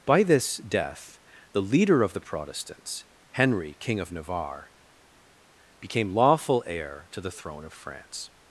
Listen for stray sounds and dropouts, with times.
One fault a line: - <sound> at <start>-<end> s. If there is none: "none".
none